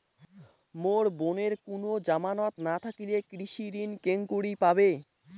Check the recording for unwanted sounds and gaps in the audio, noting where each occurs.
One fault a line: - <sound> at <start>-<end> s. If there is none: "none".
none